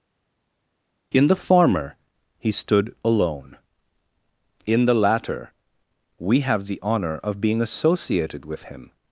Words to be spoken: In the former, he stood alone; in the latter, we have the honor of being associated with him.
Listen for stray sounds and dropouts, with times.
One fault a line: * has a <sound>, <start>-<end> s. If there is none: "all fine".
all fine